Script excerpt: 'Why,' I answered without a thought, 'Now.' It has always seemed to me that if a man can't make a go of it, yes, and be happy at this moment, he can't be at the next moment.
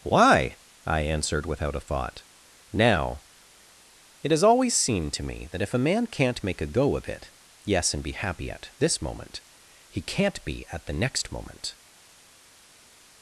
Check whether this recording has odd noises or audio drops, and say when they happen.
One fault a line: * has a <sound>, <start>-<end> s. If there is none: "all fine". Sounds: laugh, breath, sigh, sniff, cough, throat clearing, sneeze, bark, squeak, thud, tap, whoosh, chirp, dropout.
all fine